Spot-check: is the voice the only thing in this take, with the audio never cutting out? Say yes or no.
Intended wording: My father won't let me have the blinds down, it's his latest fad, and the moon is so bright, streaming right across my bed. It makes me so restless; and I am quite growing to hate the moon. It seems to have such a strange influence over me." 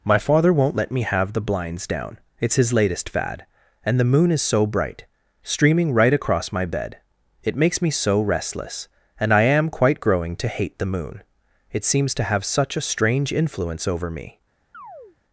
no